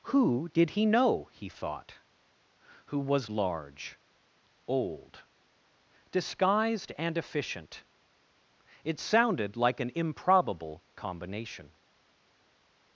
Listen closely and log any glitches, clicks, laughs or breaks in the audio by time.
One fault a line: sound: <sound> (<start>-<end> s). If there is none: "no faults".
no faults